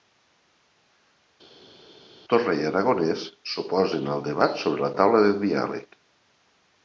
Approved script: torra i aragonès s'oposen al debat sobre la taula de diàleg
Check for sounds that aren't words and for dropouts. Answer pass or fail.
pass